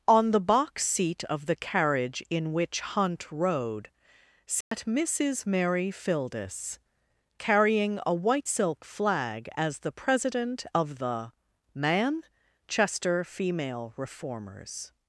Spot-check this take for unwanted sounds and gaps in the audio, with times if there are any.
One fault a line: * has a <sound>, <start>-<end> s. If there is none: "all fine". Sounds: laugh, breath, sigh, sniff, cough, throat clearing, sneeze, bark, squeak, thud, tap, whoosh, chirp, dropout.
* has a dropout, 4.6-4.7 s